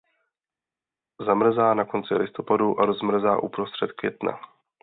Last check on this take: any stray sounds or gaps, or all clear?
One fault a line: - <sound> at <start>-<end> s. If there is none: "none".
none